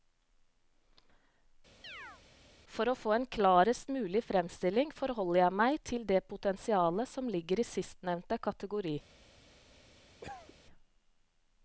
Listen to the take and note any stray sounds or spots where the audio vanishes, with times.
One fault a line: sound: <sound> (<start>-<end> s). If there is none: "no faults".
sound: chirp (1.8-2.2 s)
sound: cough (10.2-10.5 s)